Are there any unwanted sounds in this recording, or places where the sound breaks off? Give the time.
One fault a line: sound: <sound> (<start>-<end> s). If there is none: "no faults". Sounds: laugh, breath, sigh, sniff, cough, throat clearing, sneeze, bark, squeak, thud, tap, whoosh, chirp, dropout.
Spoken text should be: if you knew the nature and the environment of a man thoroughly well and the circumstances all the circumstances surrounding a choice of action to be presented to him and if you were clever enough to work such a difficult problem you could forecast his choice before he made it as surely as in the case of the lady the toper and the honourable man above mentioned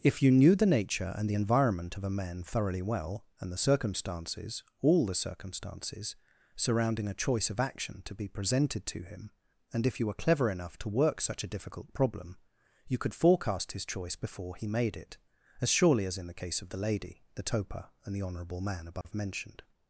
sound: dropout (19.0-19.1 s)